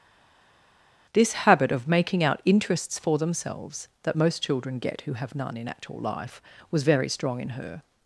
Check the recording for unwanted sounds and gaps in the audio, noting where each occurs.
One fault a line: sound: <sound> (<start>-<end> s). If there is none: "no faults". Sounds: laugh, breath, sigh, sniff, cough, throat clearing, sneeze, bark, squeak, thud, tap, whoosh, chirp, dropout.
no faults